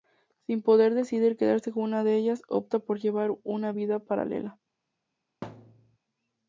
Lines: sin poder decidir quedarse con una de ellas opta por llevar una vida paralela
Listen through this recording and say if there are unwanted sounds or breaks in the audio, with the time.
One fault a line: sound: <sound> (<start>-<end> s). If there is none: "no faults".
sound: thud (5.4-6.0 s)